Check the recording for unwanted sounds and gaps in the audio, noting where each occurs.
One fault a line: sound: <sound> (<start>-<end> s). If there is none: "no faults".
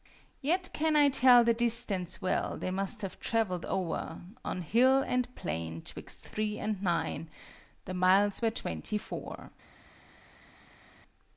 no faults